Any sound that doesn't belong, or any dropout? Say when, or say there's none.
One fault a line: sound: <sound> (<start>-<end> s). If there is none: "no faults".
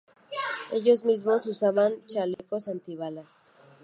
sound: dropout (2.3-2.4 s)